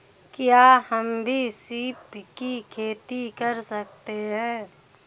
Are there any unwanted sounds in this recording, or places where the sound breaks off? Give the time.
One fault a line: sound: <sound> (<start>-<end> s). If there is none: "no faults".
no faults